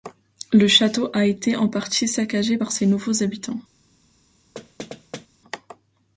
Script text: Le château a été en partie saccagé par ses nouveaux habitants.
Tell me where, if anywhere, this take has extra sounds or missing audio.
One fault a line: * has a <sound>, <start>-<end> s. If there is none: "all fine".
* has a thud, 4.5-5.3 s